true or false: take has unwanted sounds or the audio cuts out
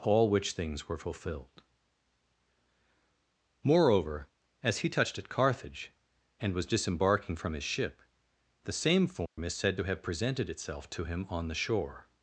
true